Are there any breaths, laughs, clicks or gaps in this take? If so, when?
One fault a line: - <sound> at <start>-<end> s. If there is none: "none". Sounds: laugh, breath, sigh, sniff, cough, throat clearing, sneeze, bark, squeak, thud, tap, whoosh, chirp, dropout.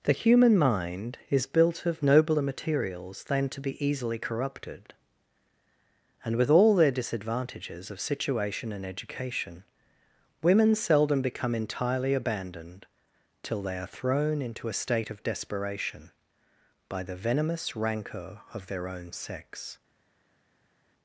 none